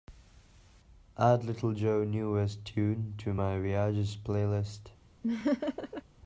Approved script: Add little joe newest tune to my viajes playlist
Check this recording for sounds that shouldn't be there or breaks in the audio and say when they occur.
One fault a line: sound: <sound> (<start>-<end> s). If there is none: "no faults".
sound: laugh (5.2-6.0 s)